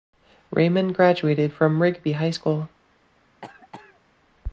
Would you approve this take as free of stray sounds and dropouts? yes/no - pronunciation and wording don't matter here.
no